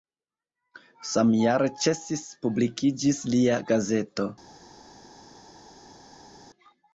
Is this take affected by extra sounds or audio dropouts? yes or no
no